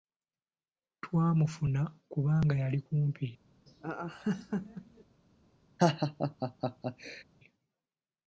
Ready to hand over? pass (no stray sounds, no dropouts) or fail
fail